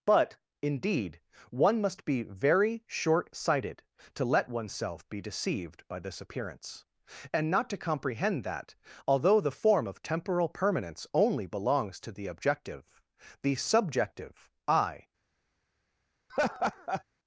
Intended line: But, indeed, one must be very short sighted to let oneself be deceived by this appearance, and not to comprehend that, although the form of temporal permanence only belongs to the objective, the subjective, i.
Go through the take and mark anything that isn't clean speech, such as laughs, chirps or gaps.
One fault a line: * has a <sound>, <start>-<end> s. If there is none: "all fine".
* has a laugh, 16.3-17.0 s